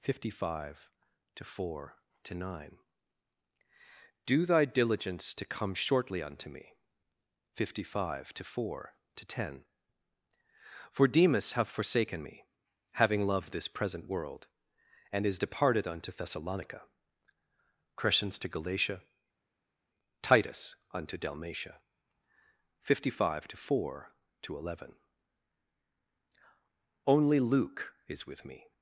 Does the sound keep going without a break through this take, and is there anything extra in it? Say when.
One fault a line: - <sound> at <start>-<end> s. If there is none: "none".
none